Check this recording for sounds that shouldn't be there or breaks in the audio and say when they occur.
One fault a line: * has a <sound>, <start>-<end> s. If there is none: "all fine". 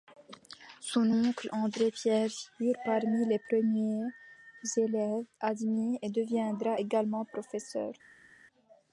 all fine